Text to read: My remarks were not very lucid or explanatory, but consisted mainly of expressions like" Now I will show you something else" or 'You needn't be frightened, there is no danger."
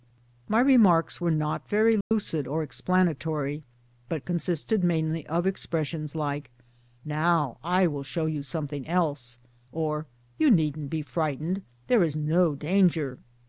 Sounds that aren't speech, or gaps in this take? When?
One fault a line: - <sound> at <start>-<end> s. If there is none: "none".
- dropout at 2.0-2.1 s